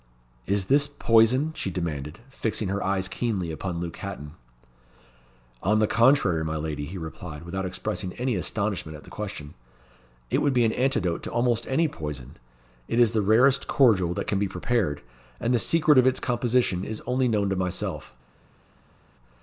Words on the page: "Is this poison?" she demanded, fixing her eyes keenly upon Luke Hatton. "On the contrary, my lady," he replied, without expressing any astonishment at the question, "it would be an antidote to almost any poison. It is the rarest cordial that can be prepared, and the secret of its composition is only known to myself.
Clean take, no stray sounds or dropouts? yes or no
yes